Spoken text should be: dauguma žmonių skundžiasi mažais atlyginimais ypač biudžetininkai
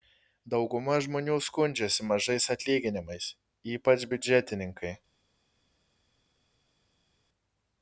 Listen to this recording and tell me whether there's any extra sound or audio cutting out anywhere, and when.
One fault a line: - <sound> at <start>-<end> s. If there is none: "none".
none